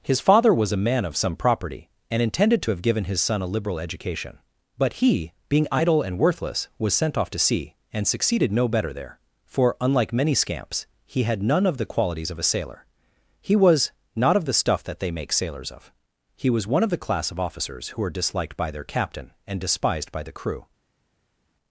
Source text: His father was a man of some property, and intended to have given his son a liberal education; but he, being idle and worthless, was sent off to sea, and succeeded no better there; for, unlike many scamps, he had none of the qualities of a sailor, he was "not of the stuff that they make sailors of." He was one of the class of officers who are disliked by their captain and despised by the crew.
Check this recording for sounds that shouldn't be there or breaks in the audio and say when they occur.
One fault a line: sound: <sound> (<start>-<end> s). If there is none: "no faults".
no faults